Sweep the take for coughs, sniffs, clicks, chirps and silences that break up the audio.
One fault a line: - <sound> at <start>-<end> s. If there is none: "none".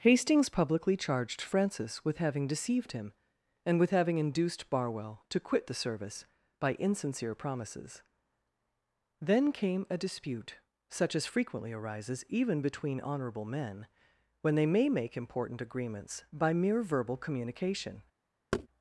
- thud at 18.5-18.7 s